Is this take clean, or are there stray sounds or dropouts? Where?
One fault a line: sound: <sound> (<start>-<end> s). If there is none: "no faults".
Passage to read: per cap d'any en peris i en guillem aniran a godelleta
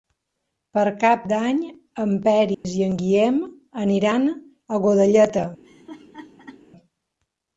sound: dropout (2.5-2.6 s)
sound: laugh (5.6-6.6 s)